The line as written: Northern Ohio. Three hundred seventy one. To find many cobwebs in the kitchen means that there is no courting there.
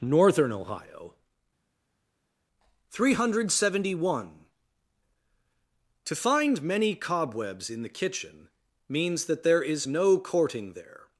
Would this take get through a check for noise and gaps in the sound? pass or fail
pass